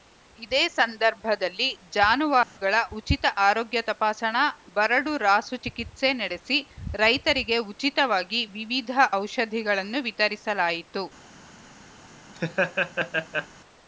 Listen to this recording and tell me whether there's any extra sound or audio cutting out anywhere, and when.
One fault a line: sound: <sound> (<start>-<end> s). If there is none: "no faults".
sound: dropout (2.4-2.6 s)
sound: laugh (12.3-13.5 s)